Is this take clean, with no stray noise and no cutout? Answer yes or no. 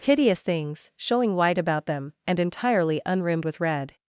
yes